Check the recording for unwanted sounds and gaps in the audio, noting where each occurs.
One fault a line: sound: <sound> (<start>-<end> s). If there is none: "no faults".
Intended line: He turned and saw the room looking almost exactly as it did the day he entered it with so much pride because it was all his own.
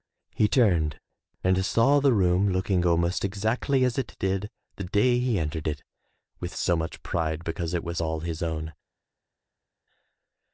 no faults